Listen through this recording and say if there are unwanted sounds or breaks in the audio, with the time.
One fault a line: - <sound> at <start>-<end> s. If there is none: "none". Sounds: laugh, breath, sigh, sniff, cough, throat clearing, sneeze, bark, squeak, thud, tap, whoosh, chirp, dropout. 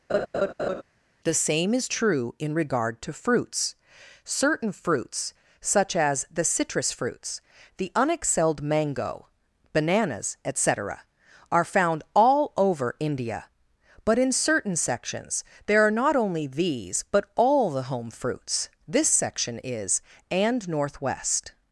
- laugh at 0.1-0.8 s